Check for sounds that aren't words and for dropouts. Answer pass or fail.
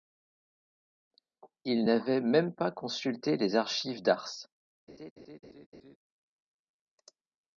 fail